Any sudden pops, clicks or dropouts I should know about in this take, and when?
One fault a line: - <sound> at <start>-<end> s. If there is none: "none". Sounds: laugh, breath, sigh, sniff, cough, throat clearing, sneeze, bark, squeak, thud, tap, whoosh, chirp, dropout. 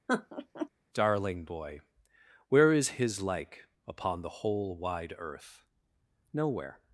- laugh at 0.1-0.7 s